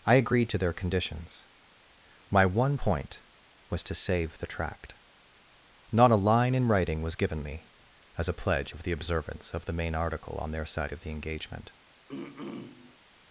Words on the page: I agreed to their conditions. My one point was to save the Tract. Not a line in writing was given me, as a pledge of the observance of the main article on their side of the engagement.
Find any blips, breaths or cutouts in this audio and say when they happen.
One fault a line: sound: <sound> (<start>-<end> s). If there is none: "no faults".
sound: throat clearing (12.1-13.0 s)